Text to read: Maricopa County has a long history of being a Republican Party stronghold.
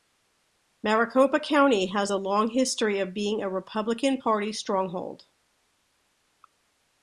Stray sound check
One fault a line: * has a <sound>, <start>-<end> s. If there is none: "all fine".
all fine